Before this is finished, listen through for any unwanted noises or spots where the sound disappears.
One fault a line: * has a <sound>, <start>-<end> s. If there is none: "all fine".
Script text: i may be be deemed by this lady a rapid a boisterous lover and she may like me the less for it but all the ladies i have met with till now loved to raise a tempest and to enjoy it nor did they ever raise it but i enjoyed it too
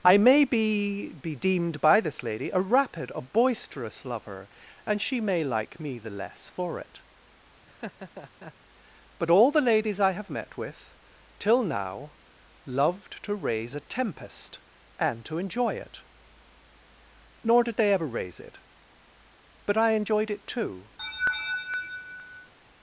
* has a laugh, 7.7-8.5 s
* has a laugh, 21.0-22.5 s